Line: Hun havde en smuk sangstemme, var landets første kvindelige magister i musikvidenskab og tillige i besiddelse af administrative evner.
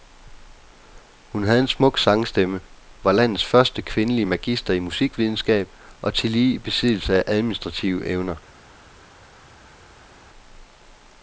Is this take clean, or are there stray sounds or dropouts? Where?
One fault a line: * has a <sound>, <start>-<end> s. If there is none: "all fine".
all fine